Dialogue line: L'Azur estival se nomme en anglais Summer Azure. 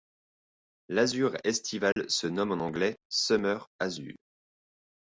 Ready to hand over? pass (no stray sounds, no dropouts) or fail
fail